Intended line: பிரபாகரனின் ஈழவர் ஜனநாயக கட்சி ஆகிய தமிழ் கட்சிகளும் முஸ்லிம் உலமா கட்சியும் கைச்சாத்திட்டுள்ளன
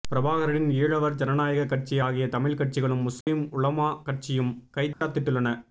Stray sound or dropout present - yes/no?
yes